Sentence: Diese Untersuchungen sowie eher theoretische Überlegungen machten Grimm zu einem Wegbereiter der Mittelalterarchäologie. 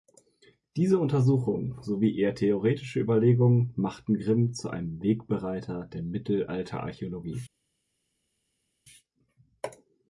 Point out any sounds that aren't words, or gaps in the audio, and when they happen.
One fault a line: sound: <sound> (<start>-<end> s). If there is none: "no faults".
no faults